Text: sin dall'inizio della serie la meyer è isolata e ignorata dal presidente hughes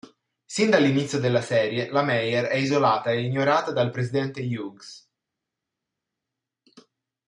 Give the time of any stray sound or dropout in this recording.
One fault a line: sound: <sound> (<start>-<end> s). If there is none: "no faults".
no faults